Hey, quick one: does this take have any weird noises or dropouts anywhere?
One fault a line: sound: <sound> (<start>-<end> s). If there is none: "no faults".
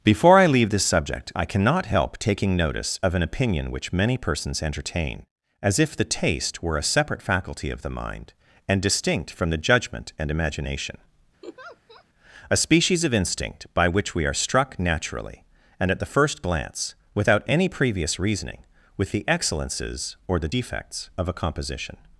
sound: laugh (11.4-12.0 s)